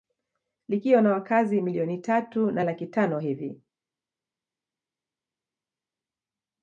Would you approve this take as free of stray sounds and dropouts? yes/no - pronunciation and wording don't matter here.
yes